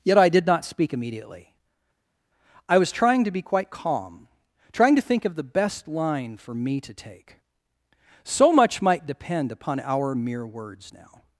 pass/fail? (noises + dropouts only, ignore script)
pass